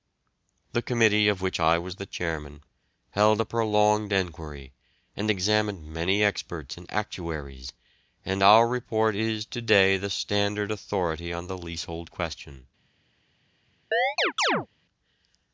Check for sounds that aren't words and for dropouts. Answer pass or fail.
fail